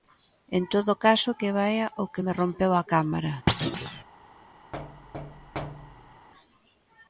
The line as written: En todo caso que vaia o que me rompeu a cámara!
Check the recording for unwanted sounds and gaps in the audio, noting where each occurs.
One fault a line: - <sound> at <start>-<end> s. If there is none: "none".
- thud at 3.5-4.0 s
- thud at 4.7-6.3 s